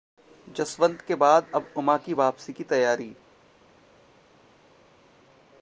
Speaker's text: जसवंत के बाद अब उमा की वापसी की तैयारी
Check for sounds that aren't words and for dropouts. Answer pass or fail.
pass